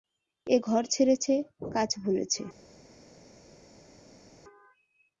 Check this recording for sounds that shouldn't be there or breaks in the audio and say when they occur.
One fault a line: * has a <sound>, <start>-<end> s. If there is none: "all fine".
all fine